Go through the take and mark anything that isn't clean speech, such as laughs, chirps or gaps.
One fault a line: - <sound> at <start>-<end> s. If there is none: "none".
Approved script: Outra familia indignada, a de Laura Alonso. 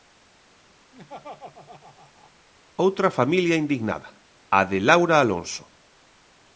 - laugh at 0.9-2.3 s